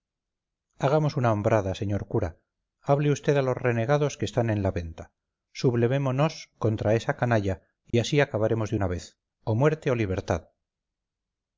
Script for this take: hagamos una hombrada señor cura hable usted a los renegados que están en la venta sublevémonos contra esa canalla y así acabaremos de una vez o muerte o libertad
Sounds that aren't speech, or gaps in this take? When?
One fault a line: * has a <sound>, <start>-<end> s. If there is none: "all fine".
* has a dropout, 7.9-7.9 s